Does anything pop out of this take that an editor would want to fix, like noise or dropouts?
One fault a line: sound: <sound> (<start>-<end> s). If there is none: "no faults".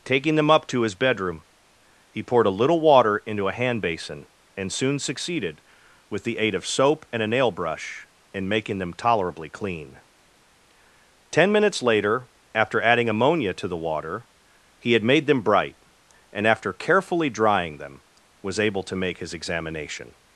no faults